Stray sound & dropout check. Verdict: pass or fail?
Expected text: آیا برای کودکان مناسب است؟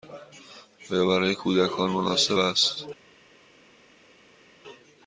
pass